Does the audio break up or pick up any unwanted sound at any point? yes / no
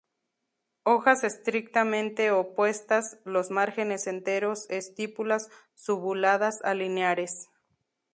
no